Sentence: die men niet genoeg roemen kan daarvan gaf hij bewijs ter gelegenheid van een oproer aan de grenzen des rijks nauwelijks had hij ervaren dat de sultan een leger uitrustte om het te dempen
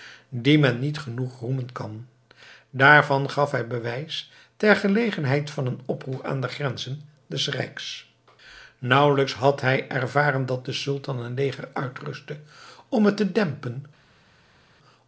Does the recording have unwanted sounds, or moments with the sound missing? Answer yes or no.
no